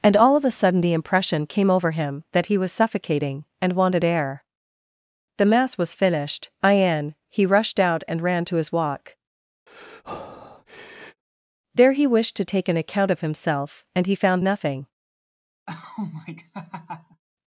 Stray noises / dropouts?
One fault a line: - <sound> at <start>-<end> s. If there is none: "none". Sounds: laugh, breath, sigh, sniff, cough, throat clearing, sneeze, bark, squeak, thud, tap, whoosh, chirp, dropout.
- breath at 9.7-11.2 s
- laugh at 15.7-17.2 s